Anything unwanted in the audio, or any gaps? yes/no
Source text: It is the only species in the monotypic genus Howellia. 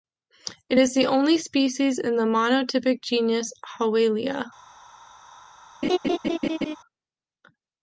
yes